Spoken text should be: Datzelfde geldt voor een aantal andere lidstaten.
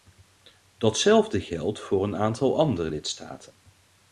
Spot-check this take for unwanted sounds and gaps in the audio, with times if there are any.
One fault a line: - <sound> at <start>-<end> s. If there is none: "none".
none